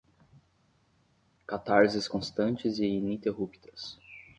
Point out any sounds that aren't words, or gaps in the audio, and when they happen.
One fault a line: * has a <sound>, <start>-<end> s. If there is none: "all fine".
all fine